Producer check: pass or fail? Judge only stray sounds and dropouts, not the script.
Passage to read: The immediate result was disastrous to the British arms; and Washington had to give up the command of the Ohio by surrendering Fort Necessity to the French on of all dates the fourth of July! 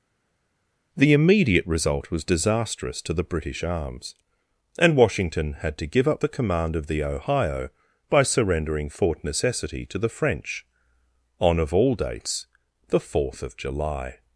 pass